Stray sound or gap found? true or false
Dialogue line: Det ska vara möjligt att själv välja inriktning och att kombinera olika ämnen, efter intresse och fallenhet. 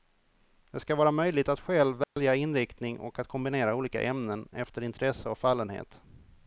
true